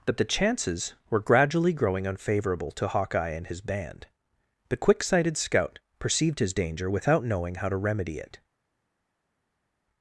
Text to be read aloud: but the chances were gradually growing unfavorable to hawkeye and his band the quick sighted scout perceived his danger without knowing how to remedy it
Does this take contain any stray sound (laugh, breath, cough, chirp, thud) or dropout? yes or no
no